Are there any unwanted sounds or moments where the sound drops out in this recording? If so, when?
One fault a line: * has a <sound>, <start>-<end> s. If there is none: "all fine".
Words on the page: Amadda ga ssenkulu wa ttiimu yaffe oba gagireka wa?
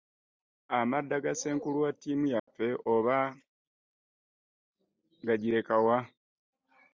* has a dropout, 2.4-2.5 s